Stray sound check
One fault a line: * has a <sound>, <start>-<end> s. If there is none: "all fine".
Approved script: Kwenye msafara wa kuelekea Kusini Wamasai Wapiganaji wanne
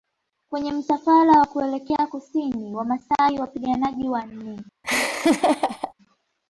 * has a laugh, 4.8-5.9 s